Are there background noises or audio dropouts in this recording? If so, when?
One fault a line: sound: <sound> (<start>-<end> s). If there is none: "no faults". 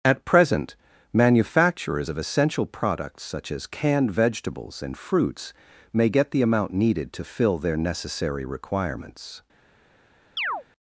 sound: chirp (10.4-10.6 s)